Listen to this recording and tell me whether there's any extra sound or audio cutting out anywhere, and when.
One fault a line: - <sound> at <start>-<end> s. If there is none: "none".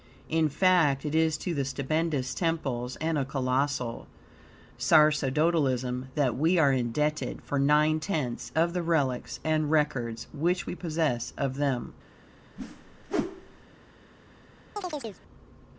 - whoosh at 12.6-13.6 s
- chirp at 14.8-15.2 s